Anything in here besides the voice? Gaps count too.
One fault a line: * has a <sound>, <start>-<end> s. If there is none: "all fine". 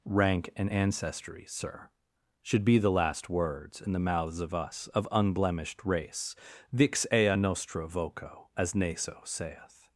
all fine